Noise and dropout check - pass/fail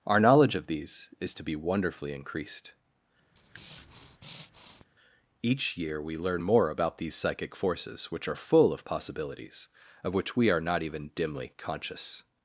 fail